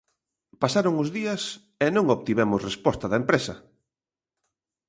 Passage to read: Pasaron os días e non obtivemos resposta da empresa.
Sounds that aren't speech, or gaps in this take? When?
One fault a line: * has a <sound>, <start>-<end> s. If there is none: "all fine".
all fine